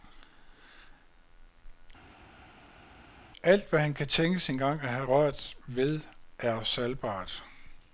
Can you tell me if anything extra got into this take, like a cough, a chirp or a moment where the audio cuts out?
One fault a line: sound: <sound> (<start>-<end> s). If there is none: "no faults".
no faults